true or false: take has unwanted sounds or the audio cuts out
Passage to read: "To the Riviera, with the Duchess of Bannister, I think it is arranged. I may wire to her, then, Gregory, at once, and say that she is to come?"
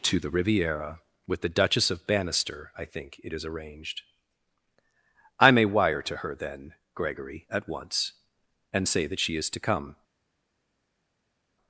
false